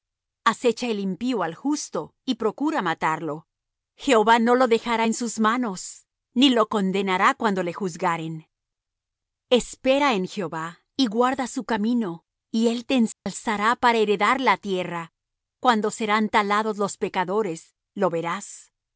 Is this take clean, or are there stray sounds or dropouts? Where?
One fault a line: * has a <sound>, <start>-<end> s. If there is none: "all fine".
* has a dropout, 13.1-13.3 s